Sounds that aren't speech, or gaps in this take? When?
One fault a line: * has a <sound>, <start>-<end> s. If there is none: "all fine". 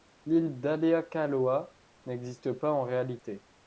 all fine